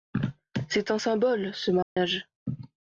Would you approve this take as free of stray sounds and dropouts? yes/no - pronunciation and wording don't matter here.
no